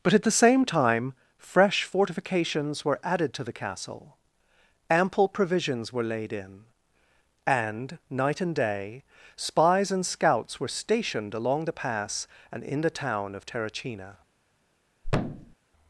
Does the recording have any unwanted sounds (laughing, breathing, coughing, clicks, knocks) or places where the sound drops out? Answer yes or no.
yes